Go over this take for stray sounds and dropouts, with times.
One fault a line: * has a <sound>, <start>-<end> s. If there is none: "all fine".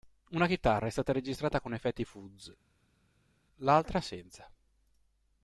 all fine